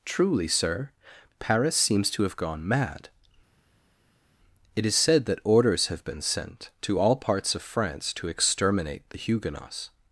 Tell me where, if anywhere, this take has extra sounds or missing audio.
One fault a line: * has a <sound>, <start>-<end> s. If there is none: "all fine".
all fine